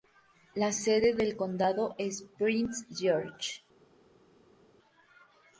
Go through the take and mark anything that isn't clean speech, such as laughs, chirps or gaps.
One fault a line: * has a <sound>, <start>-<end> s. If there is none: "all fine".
all fine